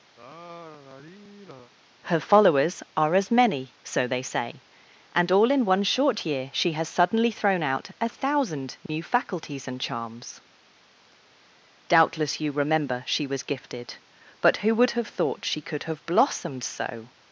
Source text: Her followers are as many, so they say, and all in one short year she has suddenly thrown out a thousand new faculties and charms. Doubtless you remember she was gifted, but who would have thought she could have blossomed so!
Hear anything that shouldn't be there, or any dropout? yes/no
yes